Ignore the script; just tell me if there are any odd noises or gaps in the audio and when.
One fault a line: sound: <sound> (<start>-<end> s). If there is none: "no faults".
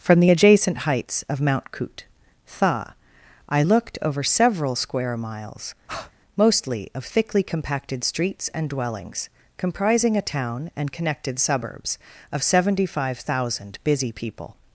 sound: breath (5.9-6.1 s)